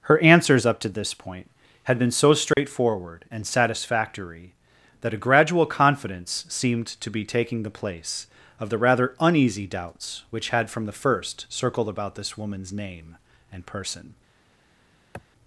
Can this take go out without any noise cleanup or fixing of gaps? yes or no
no